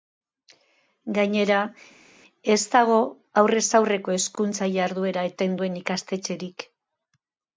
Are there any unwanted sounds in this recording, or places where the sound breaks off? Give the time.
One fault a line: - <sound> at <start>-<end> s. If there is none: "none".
none